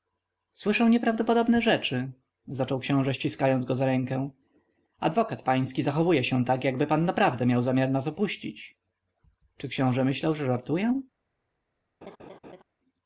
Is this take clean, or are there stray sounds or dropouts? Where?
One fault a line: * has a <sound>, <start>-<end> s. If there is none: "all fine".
* has a laugh, 12.0-12.6 s